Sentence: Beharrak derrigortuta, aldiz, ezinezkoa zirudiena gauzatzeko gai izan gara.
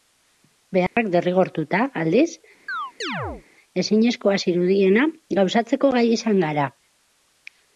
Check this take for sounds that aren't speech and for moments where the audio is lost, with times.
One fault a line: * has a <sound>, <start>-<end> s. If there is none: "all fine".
* has a dropout, 0.9-1.0 s
* has a chirp, 2.7-3.4 s